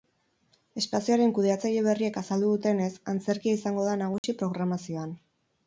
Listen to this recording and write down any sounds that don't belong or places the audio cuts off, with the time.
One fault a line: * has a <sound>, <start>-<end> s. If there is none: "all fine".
* has a dropout, 4.2-4.2 s